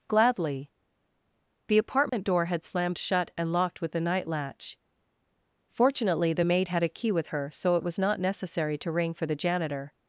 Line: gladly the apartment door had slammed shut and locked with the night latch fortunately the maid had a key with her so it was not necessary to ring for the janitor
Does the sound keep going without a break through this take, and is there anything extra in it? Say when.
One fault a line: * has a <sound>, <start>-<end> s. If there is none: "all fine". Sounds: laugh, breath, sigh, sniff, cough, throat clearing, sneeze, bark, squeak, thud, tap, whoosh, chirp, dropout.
* has a dropout, 2.1-2.1 s